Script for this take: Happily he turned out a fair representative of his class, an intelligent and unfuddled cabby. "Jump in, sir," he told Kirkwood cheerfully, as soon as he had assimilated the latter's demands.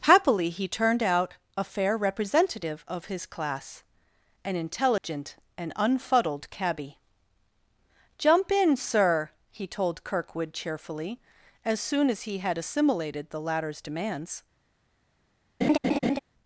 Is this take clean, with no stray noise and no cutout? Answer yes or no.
no